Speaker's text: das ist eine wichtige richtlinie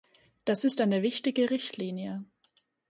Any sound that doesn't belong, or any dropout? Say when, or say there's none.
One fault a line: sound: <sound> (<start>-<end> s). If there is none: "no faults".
no faults